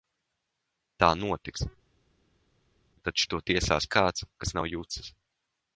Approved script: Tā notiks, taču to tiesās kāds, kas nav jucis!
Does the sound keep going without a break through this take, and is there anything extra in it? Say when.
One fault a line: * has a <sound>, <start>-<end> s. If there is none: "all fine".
all fine